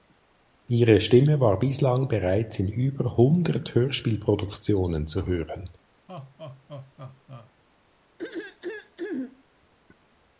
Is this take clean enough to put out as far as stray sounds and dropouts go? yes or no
no